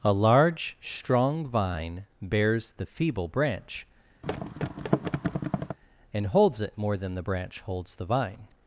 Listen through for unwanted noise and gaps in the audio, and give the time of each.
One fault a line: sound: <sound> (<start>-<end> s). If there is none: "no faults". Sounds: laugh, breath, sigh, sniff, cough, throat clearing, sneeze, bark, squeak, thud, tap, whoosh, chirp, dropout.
sound: thud (4.2-5.8 s)